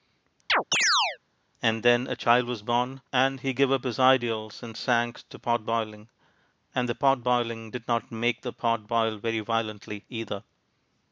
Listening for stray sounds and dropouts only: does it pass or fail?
fail